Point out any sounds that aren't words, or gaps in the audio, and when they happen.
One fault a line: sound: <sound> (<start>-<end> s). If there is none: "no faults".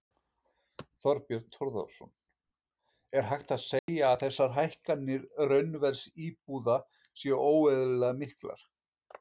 sound: dropout (3.8-3.9 s)